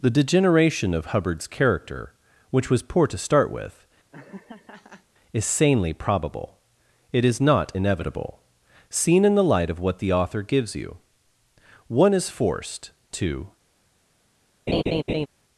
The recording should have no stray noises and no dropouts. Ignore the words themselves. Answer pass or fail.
fail